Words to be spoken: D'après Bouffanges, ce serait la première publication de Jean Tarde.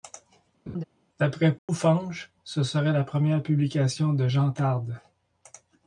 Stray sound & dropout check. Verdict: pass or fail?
fail